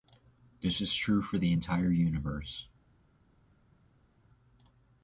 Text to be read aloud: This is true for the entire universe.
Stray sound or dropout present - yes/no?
no